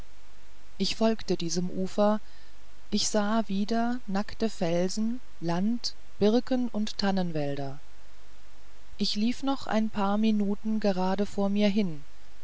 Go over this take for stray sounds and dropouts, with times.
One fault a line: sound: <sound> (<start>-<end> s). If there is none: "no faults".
no faults